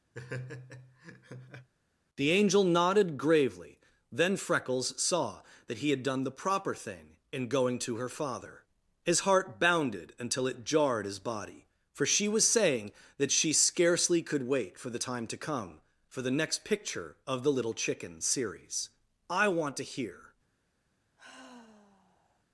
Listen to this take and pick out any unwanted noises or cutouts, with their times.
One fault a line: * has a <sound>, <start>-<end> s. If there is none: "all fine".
* has a laugh, 0.1-1.7 s
* has a sigh, 21.2-22.4 s